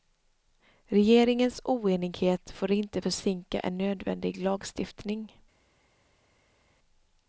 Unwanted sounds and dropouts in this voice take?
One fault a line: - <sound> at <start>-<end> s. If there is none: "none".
none